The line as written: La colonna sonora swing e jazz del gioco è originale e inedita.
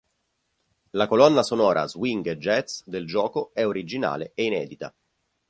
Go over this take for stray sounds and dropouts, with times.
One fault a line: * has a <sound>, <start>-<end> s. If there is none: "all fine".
all fine